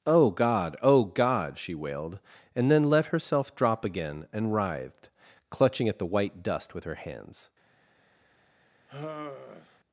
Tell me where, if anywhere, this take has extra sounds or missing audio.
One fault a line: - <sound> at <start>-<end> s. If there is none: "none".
- sigh at 8.9-9.8 s